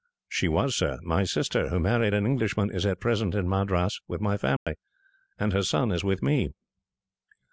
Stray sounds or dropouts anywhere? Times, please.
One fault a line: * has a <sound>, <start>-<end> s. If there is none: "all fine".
* has a dropout, 4.6-4.7 s